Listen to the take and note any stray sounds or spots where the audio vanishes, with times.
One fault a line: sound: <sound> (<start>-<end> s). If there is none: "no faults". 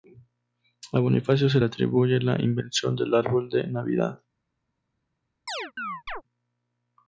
sound: chirp (5.5-6.2 s)